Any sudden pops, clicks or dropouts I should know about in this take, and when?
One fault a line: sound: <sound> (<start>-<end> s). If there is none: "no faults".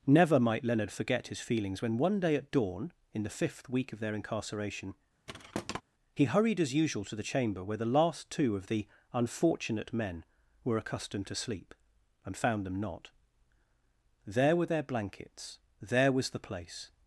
sound: thud (5.3-5.8 s)